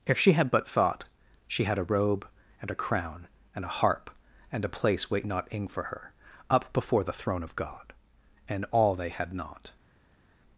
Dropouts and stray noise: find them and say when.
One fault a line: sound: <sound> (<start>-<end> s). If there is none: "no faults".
no faults